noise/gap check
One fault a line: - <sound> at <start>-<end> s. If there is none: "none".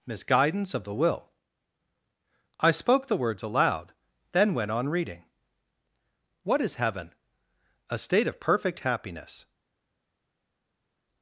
none